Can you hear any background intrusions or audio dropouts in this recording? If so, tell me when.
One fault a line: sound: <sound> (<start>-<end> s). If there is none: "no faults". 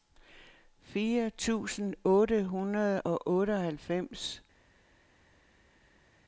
no faults